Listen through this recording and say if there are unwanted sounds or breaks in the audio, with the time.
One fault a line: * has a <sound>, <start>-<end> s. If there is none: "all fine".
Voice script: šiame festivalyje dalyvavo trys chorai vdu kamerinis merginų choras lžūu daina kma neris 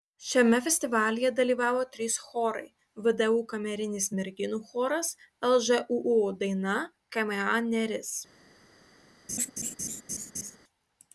* has a laugh, 9.3-10.6 s